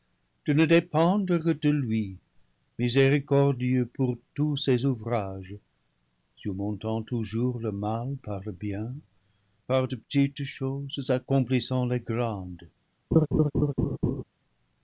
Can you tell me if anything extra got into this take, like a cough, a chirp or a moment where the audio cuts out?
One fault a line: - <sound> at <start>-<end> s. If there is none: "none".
- laugh at 13.1-14.2 s